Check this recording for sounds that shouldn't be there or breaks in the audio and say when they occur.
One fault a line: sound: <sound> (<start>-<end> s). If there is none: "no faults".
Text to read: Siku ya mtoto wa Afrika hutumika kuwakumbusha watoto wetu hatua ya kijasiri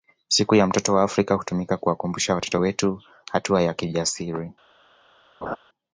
sound: laugh (5.4-5.6 s)